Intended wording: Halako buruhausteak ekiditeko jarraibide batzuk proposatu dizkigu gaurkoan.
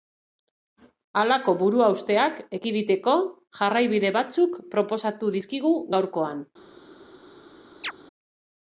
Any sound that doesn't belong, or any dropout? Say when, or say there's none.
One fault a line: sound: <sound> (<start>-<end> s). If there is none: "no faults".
sound: chirp (7.8-7.9 s)